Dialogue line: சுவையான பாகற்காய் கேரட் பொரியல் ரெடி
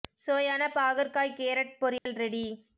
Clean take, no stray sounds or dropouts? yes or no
no